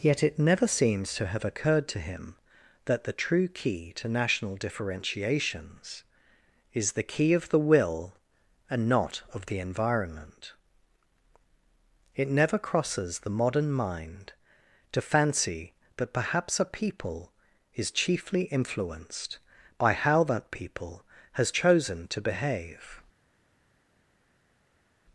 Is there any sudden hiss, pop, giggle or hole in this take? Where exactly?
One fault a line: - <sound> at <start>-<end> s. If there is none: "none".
none